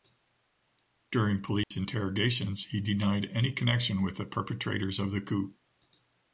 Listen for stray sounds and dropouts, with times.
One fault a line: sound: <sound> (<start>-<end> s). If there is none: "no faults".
sound: dropout (1.6-1.7 s)